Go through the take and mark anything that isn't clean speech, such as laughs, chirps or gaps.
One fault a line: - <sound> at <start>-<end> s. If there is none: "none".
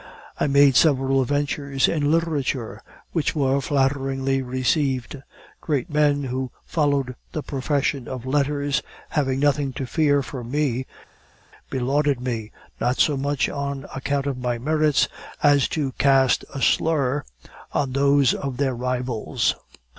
none